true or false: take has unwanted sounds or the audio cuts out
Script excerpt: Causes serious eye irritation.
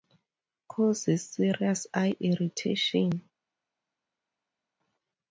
false